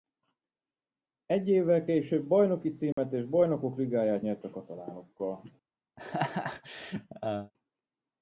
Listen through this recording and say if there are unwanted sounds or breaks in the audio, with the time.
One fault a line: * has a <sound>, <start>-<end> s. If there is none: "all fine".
* has a dropout, 2.9-3.0 s
* has a laugh, 6.0-7.5 s